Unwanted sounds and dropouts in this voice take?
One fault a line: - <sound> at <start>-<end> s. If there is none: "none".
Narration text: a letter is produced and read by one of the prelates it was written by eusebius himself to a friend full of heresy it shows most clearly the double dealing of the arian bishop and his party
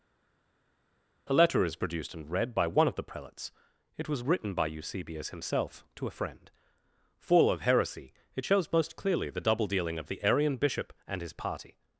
none